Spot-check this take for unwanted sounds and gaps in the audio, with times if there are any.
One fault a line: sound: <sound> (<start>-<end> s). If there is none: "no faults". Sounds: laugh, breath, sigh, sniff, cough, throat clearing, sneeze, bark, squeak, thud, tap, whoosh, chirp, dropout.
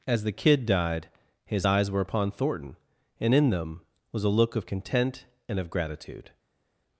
no faults